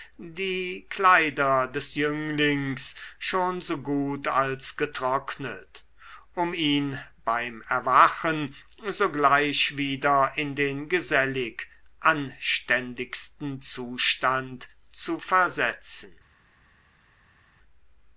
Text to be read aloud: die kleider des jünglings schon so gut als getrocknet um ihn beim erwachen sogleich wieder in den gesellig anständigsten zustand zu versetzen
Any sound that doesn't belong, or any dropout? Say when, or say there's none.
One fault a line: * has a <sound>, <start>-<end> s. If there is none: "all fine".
all fine